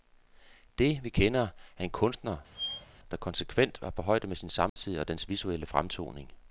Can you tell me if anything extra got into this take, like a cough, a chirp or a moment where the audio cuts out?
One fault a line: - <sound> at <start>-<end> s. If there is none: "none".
- squeak at 2.5-2.9 s
- dropout at 4.7-4.8 s